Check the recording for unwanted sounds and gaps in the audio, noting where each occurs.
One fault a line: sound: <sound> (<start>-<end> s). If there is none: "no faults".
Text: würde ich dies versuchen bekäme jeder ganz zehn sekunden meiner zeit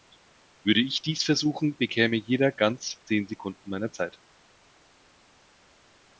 no faults